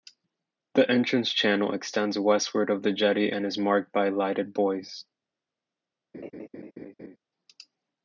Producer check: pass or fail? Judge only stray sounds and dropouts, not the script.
fail